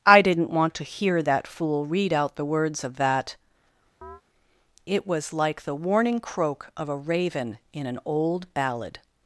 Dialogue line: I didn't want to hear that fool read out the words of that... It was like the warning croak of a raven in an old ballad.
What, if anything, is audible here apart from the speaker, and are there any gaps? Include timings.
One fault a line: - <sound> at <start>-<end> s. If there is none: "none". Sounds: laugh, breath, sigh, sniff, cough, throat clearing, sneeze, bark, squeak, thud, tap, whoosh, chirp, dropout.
- chirp at 4.0-4.2 s